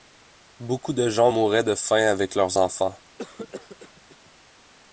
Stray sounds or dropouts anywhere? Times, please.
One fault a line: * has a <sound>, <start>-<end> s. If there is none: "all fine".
* has a cough, 3.2-4.3 s